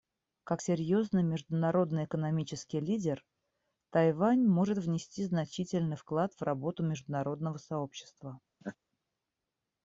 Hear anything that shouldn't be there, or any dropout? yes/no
yes